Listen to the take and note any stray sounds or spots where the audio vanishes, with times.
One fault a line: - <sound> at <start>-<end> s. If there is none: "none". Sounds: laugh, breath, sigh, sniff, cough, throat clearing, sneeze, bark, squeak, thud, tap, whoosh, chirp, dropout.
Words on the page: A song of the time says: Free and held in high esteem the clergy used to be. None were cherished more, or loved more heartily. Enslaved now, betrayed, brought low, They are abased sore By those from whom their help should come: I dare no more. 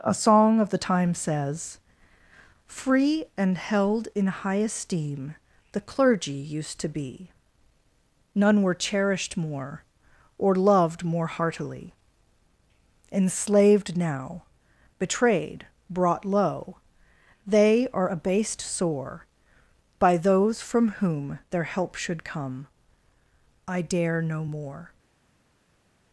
none